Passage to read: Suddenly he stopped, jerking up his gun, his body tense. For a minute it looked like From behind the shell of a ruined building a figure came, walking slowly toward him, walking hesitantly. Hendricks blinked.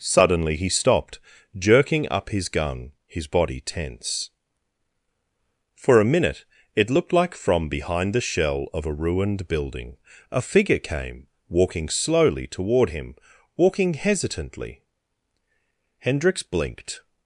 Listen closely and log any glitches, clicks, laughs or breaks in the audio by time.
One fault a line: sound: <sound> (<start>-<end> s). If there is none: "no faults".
no faults